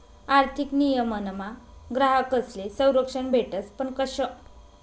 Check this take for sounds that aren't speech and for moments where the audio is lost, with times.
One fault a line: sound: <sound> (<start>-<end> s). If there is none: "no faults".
no faults